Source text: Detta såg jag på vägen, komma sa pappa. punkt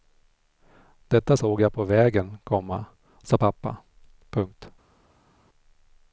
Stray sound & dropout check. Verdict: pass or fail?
pass